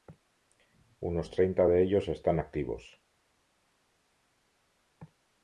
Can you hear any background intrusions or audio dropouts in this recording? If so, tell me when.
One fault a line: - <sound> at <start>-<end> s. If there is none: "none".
none